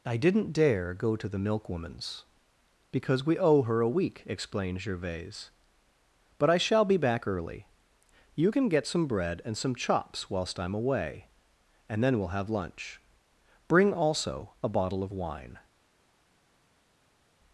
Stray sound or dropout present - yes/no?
no